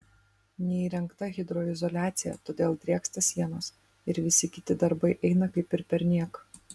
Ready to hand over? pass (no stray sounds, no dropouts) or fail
pass